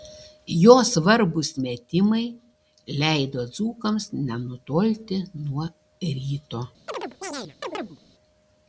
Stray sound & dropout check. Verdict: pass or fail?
fail